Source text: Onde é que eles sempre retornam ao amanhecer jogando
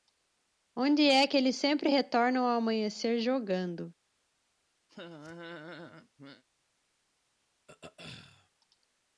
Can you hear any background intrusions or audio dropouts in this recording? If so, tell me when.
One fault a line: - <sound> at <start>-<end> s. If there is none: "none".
- laugh at 4.9-6.4 s
- throat clearing at 7.7-8.5 s